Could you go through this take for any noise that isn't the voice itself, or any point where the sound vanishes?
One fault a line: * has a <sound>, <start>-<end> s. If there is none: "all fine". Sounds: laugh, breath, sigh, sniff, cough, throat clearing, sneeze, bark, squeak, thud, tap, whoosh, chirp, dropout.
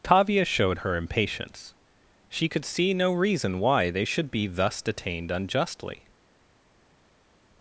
all fine